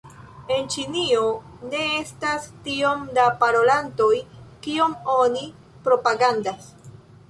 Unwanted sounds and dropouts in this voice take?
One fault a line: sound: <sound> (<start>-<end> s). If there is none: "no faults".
no faults